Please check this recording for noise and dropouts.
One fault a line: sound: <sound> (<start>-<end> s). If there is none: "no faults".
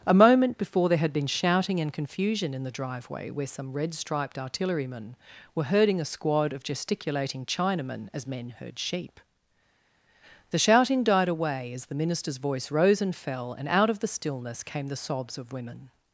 no faults